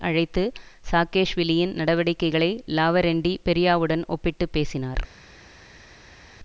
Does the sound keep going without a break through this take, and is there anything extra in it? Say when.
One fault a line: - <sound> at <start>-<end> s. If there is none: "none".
none